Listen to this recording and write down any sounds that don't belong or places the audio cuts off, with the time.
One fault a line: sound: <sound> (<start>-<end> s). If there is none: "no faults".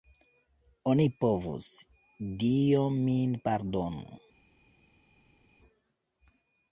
no faults